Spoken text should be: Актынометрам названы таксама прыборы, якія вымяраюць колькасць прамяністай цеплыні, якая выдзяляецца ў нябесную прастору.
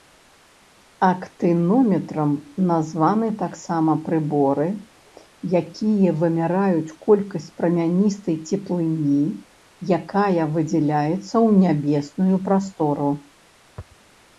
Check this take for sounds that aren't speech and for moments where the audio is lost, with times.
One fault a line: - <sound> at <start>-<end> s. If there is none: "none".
none